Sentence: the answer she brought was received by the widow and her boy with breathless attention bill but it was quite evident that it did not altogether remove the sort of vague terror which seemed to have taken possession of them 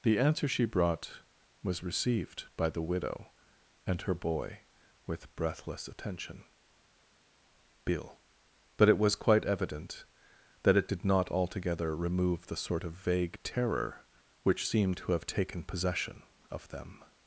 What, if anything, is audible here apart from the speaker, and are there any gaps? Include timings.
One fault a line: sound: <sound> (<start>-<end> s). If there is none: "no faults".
no faults